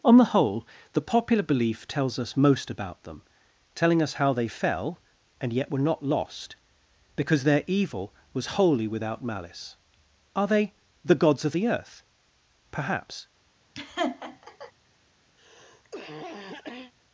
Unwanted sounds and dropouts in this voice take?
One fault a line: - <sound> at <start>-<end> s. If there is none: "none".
- laugh at 13.7-14.7 s
- cough at 15.4-16.9 s